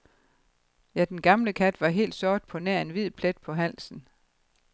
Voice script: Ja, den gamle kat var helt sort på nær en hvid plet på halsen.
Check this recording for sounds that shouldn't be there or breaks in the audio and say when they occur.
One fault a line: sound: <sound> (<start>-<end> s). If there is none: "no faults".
no faults